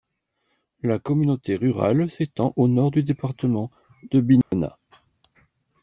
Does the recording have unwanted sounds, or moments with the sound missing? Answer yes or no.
yes